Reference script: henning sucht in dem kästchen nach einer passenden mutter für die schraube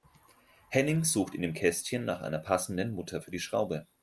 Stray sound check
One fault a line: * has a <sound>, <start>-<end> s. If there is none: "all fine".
all fine